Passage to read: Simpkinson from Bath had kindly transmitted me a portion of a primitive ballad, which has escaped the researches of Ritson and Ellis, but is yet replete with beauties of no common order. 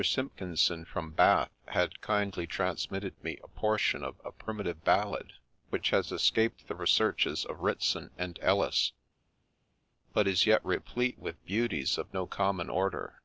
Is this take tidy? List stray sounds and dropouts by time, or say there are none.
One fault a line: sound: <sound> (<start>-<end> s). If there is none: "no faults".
no faults